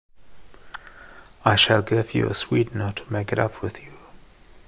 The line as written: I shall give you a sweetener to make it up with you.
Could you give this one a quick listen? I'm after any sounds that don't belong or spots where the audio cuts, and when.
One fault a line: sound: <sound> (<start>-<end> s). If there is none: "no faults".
no faults